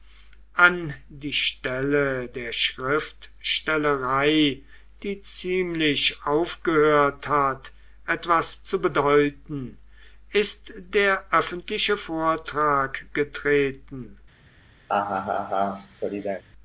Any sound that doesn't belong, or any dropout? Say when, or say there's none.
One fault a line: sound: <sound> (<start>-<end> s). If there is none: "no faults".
sound: laugh (14.9-16.4 s)